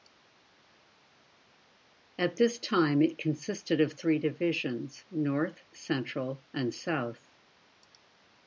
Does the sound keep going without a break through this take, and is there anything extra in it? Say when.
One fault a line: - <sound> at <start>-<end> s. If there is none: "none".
none